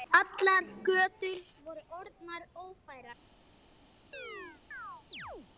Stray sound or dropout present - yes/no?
yes